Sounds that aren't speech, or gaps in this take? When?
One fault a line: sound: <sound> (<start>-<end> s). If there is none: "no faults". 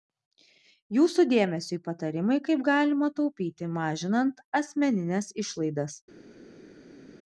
no faults